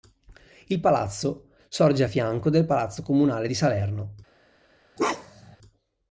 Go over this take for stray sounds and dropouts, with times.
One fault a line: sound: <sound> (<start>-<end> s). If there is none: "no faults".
sound: bark (5.0-5.6 s)